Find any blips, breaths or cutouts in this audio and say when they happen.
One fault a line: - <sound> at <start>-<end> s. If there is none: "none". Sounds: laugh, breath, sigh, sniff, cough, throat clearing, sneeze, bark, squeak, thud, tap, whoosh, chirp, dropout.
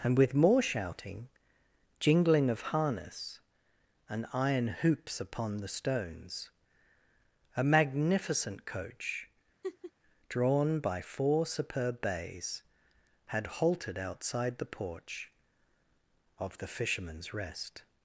- laugh at 9.6-9.9 s